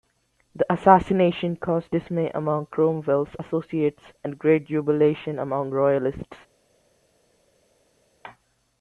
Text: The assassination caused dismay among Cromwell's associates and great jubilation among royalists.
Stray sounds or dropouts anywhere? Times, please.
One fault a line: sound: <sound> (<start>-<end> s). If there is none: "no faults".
no faults